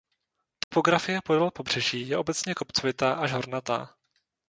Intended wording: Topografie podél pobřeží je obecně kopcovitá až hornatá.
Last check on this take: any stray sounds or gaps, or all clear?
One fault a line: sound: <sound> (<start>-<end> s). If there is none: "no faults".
sound: dropout (0.6-0.7 s)